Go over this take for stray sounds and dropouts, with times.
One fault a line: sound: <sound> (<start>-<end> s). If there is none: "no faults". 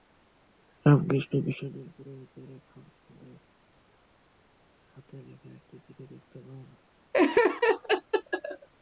sound: laugh (7.1-8.7 s)